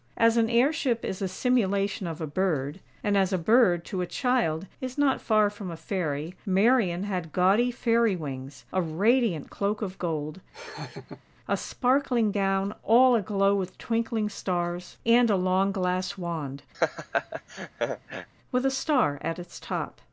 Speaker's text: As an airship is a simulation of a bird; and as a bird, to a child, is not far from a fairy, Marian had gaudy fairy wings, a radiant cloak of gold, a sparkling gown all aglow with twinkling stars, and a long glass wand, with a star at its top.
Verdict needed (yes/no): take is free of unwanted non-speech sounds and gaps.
no